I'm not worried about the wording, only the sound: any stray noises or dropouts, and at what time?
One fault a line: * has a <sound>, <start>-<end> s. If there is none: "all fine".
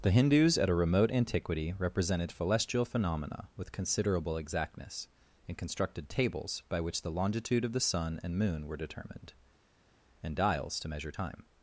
all fine